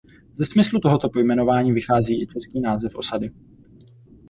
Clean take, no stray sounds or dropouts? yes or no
yes